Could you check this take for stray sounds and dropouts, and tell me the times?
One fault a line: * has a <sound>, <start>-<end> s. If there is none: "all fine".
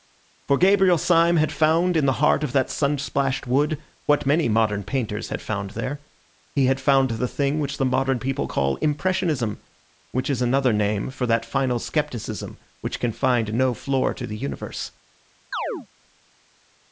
* has a chirp, 15.5-15.9 s